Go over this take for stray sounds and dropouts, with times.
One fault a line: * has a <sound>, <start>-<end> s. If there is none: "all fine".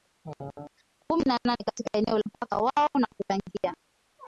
all fine